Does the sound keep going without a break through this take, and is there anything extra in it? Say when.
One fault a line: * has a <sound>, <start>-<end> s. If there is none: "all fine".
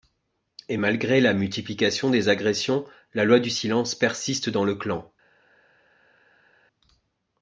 all fine